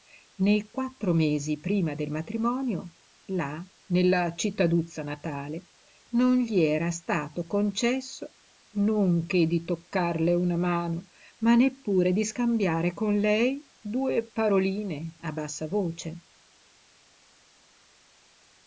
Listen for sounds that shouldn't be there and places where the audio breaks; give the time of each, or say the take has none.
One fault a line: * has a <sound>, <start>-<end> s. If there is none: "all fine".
all fine